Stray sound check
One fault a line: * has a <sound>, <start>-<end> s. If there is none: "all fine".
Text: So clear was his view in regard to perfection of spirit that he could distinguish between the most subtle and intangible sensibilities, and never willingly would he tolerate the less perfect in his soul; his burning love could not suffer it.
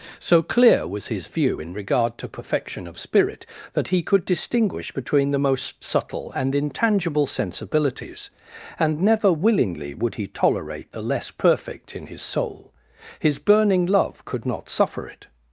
all fine